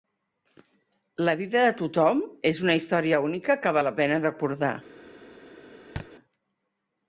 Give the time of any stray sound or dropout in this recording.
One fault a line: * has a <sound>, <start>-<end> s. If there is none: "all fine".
* has a thud, 6.0-6.1 s